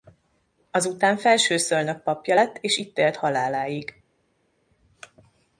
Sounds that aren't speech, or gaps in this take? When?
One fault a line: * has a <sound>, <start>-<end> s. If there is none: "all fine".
all fine